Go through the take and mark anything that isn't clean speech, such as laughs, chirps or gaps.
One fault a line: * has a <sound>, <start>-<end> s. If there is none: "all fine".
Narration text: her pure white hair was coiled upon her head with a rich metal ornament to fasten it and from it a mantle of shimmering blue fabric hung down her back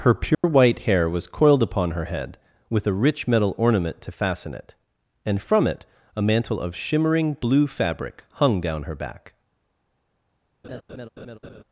* has a dropout, 0.3-0.4 s
* has a laugh, 10.6-11.6 s